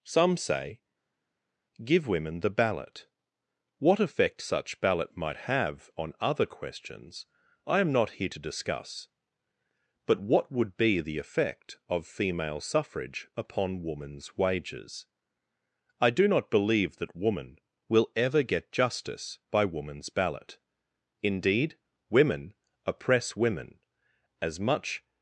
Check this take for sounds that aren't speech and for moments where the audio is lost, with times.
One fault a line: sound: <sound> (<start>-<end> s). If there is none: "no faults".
no faults